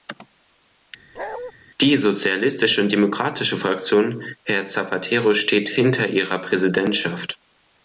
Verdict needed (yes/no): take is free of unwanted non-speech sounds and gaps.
no